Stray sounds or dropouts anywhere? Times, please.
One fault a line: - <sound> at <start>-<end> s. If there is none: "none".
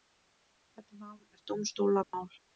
- dropout at 2.0-2.1 s